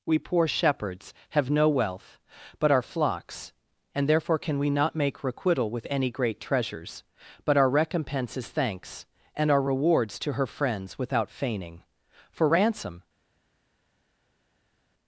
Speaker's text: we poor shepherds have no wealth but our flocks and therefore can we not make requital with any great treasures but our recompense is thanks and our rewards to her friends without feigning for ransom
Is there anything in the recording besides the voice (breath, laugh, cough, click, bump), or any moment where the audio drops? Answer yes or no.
no